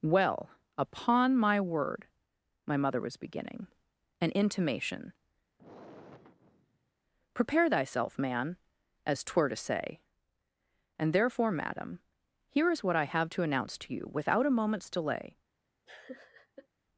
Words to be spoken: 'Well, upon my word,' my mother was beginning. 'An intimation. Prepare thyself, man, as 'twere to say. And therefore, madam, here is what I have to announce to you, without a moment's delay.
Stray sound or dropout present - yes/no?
yes